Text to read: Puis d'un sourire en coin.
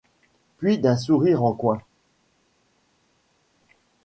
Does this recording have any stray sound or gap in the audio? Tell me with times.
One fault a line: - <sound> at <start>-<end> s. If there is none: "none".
none